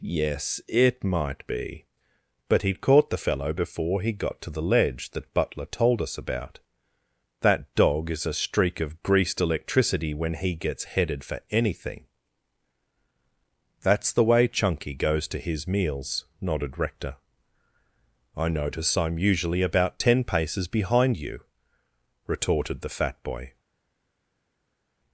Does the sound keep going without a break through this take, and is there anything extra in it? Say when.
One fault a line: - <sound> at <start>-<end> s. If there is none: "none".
none